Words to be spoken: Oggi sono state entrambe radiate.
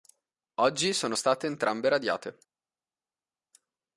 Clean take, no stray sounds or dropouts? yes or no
yes